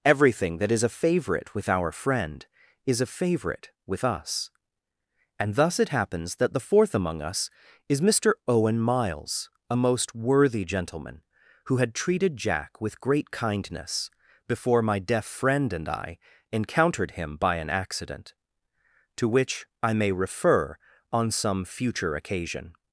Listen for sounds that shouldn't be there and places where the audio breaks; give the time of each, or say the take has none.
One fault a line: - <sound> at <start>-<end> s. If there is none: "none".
none